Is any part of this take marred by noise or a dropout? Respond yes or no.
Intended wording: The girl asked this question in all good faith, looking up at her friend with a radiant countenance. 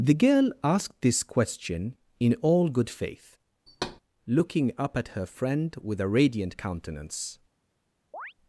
yes